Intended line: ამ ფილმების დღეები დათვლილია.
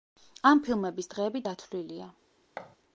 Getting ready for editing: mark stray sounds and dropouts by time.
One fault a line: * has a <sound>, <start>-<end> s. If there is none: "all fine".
* has a thud, 2.6-2.8 s